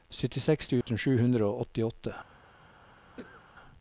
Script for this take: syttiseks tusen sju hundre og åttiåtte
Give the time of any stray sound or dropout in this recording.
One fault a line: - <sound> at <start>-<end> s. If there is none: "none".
- dropout at 0.8-0.9 s
- cough at 3.2-3.4 s